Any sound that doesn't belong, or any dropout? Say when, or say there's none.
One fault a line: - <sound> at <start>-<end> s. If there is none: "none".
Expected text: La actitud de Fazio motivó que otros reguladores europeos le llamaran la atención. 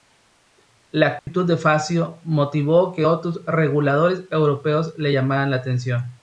- dropout at 1.2-1.3 s